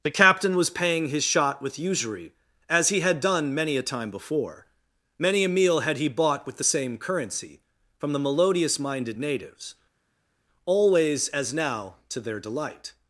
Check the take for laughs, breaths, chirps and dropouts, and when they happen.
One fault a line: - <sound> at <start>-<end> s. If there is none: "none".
none